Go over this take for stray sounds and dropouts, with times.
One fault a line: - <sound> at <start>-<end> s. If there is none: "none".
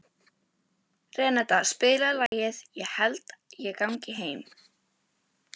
- dropout at 2.3-2.3 s